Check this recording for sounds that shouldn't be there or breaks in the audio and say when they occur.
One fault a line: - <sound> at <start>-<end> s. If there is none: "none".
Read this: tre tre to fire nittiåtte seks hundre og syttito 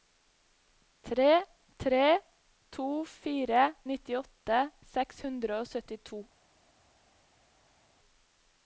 none